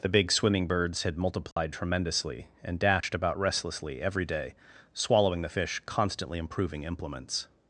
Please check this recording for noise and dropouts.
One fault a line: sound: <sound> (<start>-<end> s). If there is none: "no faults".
sound: dropout (1.5-1.6 s)
sound: dropout (3.0-3.0 s)